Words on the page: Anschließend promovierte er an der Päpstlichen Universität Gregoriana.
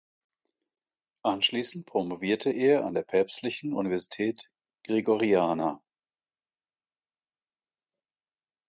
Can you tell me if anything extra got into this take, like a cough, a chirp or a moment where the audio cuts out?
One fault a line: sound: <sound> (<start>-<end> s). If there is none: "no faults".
no faults